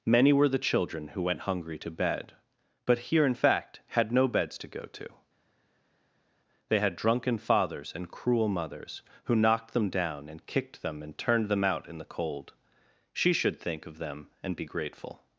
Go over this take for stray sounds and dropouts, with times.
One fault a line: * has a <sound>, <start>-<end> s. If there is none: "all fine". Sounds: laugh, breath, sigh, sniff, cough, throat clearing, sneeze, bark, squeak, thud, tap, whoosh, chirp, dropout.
all fine